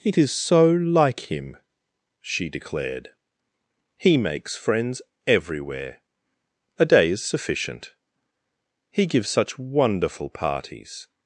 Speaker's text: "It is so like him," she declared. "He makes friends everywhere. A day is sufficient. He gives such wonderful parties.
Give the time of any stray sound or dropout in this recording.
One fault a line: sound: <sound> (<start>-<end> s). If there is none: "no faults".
no faults